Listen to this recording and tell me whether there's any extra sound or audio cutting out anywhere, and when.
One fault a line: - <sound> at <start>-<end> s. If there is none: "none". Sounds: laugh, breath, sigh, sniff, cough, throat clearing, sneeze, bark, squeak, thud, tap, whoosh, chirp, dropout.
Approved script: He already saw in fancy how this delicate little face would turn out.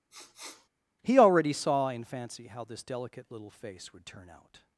- sniff at 0.1-0.7 s